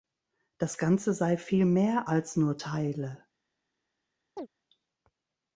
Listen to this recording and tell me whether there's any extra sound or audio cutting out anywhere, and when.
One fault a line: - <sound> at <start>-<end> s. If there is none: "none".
- chirp at 4.4-4.5 s